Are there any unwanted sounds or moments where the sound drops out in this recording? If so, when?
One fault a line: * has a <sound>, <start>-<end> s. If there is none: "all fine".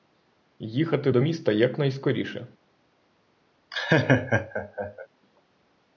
* has a laugh, 3.7-5.1 s